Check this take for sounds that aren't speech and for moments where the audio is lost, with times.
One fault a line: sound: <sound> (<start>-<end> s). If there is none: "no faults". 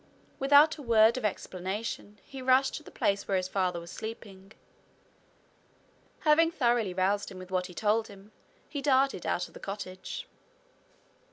no faults